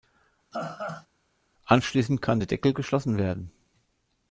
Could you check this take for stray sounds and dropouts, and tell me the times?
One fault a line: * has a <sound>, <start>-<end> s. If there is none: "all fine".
* has a laugh, 0.5-1.1 s